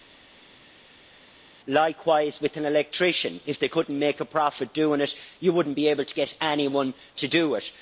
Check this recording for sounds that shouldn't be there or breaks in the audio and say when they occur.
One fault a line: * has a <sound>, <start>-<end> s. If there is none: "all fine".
all fine